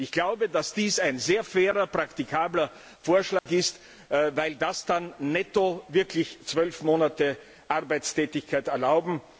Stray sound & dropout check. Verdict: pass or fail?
fail